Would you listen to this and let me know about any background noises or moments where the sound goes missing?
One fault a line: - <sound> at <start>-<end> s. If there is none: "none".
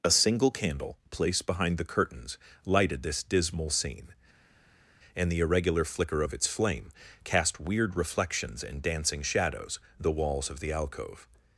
none